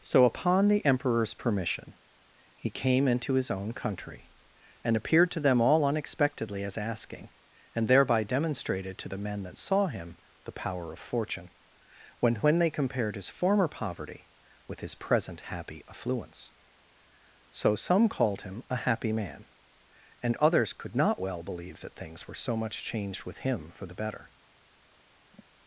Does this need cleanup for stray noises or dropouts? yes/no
yes